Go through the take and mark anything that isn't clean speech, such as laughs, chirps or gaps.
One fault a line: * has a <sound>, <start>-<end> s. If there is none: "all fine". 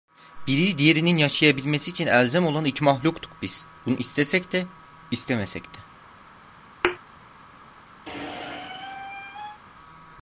* has a thud, 6.8-7.0 s
* has a squeak, 8.1-9.6 s